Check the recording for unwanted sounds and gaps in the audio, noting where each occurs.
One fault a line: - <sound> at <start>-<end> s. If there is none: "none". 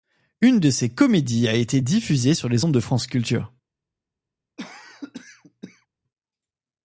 - cough at 4.6-5.9 s